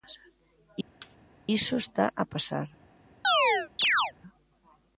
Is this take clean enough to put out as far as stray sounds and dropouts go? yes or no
no